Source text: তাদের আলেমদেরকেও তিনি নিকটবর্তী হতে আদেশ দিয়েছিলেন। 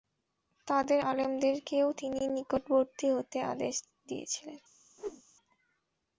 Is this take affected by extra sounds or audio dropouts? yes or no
yes